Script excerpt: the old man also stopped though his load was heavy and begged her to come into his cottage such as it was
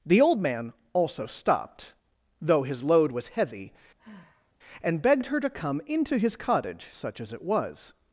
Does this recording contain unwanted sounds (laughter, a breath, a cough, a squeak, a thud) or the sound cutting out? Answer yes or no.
yes